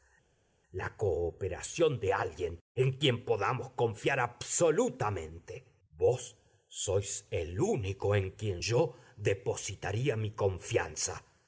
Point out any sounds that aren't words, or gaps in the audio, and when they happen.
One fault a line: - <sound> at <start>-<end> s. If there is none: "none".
none